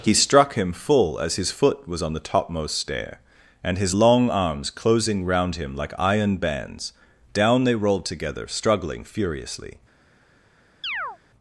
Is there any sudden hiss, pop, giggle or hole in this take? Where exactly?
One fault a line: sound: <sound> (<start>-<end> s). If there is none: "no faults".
sound: chirp (10.8-11.2 s)